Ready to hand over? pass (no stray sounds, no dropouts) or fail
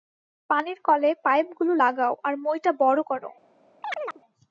fail